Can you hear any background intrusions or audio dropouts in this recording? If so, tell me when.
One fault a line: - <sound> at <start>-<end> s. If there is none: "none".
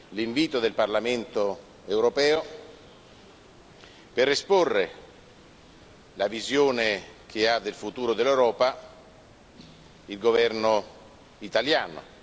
none